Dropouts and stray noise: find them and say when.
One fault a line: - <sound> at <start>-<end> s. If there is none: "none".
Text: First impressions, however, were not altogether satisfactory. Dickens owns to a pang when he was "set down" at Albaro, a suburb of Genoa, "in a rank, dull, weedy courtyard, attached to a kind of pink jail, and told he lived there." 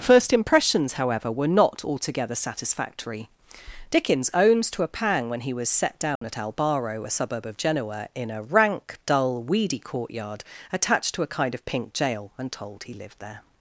- dropout at 6.2-6.2 s